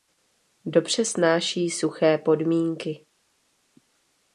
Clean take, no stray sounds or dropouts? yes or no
yes